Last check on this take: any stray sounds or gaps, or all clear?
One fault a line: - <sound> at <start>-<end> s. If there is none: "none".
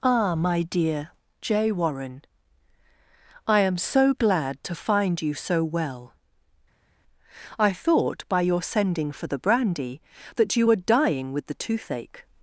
none